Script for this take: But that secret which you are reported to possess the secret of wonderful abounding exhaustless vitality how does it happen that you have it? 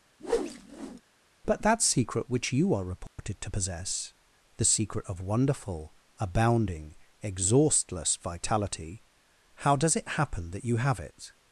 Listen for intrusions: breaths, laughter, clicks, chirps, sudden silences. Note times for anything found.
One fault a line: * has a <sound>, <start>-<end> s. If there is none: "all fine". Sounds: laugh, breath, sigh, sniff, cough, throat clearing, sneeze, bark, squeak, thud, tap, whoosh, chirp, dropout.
* has a whoosh, 0.2-1.0 s
* has a dropout, 3.1-3.2 s